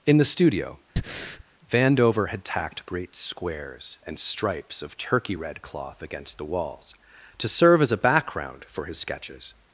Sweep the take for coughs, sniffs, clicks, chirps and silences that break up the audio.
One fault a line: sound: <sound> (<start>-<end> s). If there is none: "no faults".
sound: breath (1.0-1.4 s)